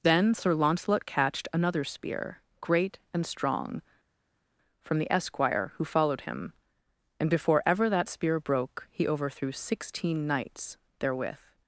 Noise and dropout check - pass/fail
pass